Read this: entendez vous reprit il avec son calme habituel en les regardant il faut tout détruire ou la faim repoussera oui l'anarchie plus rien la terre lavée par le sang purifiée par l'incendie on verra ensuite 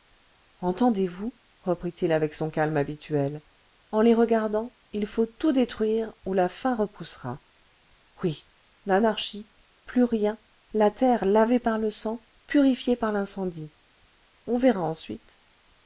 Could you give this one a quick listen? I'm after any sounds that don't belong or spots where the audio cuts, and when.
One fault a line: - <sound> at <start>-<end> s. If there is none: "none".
none